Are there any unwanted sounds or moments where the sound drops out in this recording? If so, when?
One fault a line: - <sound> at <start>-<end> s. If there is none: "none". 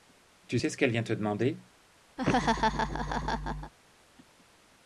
- laugh at 2.2-3.7 s